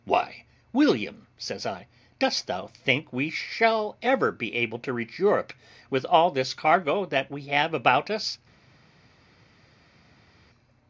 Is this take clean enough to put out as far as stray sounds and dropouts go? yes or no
yes